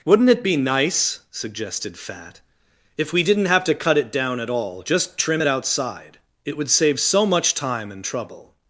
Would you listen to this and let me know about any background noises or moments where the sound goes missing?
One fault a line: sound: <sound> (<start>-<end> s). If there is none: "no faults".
no faults